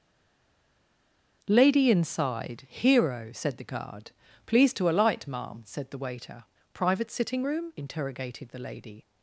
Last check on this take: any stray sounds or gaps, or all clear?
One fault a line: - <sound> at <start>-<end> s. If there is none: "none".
none